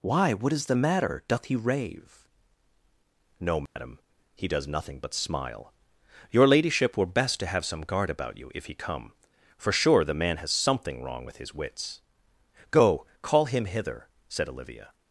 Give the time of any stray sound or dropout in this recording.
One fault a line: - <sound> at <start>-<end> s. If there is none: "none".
- dropout at 3.7-3.8 s